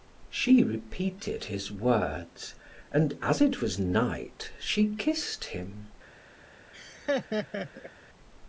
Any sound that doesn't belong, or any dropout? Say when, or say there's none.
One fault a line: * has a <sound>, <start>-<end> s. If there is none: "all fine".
* has a laugh, 6.7-7.9 s